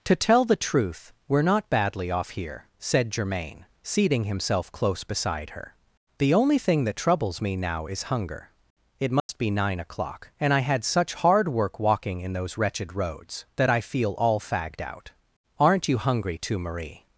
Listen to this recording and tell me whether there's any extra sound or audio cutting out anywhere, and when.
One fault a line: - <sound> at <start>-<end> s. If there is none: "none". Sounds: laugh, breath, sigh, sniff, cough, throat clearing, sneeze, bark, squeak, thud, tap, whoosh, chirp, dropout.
- dropout at 9.2-9.3 s